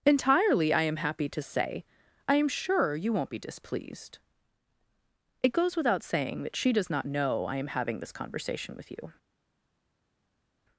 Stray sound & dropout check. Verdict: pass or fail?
pass